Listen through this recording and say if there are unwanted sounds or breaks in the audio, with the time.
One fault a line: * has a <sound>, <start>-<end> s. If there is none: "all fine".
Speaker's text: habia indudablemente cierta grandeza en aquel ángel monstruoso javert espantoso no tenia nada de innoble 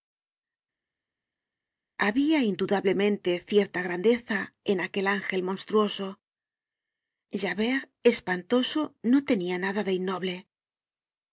all fine